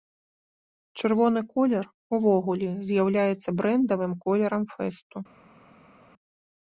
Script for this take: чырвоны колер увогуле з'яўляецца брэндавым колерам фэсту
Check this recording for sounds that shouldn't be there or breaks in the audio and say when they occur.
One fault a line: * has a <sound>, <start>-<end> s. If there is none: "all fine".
all fine